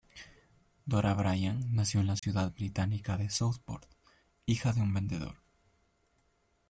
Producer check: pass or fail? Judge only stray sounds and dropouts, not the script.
fail